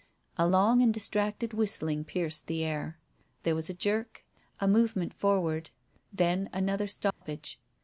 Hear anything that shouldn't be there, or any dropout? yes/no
yes